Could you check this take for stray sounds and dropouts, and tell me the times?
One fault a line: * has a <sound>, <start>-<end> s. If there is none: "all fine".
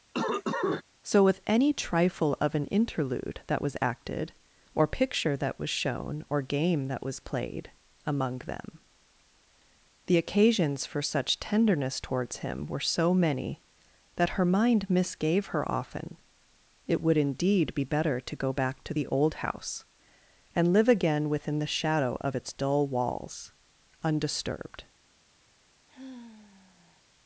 * has a cough, 0.1-0.8 s
* has a sigh, 25.9-27.0 s